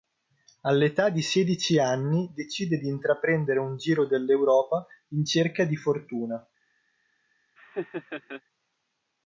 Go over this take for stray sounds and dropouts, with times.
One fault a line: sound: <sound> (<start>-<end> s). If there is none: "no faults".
sound: laugh (7.6-8.4 s)